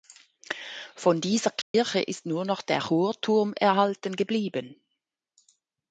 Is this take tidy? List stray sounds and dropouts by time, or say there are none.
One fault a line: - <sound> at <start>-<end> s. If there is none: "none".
- dropout at 1.6-1.7 s